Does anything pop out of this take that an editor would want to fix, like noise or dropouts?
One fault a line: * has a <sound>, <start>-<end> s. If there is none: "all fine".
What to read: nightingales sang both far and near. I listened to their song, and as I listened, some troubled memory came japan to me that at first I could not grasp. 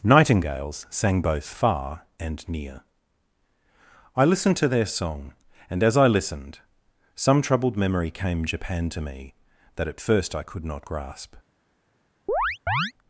* has a chirp, 12.3-12.9 s